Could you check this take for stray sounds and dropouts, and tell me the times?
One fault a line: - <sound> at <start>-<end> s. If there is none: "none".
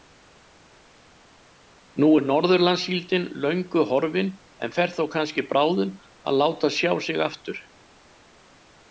none